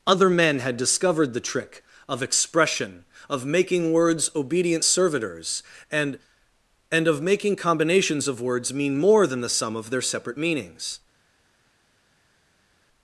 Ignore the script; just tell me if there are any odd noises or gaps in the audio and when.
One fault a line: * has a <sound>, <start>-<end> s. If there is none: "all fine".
all fine